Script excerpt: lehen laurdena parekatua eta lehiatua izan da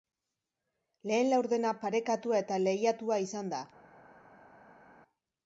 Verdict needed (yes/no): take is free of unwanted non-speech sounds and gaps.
yes